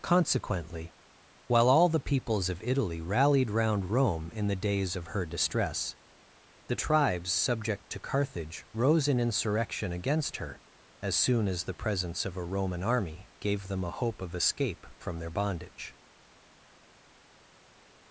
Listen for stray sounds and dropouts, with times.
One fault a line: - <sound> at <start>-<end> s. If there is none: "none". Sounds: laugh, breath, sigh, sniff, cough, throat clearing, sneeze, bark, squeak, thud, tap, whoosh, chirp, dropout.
none